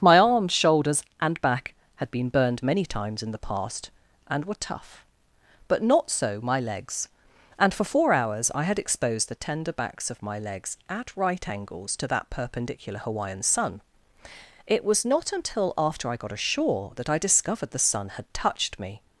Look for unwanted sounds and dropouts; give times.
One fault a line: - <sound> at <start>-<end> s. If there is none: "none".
none